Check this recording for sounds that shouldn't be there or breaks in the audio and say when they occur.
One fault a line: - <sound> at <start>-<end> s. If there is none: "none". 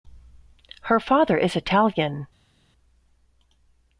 none